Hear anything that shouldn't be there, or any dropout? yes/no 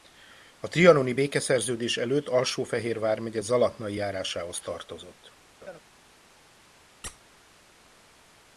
yes